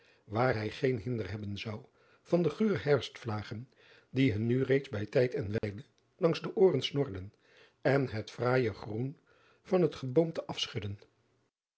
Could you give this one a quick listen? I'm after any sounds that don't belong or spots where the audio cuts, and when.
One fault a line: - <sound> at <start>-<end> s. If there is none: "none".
- dropout at 5.6-5.6 s